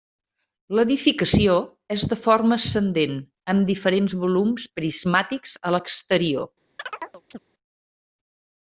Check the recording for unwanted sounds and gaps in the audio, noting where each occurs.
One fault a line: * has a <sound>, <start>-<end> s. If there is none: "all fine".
* has a chirp, 6.8-7.4 s